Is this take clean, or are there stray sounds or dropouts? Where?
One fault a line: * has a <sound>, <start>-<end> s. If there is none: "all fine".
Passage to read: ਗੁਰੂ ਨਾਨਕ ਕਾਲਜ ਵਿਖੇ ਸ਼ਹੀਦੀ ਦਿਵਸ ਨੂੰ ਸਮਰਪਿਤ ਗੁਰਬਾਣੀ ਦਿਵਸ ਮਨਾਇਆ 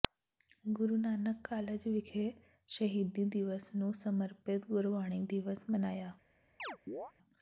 * has a chirp, 6.6-7.1 s